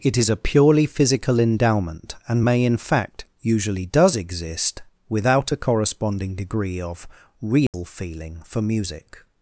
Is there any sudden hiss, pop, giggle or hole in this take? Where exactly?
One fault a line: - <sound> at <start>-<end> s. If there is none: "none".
- dropout at 7.7-7.7 s